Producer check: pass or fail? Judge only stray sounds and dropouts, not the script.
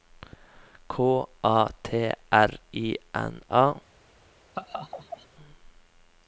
fail